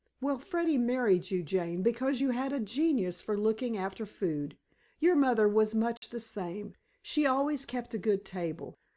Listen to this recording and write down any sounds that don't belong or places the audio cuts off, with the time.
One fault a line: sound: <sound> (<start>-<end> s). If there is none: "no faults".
sound: dropout (6.0-6.0 s)